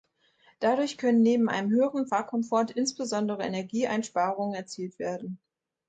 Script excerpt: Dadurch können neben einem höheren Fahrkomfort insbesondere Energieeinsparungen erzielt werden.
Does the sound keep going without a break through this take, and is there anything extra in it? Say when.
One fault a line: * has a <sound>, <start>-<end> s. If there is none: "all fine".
all fine